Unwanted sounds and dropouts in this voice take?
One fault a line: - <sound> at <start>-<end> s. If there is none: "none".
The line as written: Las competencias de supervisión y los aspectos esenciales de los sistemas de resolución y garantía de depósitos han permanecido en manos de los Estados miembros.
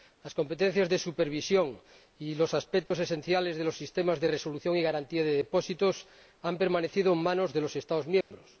- dropout at 2.9-2.9 s
- dropout at 8.2-8.3 s